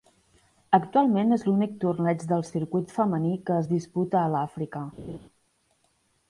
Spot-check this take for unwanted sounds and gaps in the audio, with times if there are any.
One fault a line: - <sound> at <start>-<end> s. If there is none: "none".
- laugh at 5.0-5.2 s